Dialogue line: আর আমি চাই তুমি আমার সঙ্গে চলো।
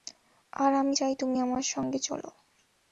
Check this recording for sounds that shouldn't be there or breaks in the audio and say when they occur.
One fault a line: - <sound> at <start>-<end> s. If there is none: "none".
none